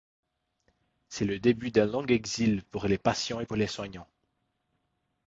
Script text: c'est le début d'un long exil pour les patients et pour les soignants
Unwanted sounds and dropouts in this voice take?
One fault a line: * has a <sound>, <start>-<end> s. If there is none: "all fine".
all fine